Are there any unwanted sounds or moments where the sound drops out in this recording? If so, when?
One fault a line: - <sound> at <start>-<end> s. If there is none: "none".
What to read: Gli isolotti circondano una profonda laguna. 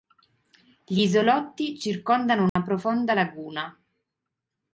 - dropout at 2.5-2.6 s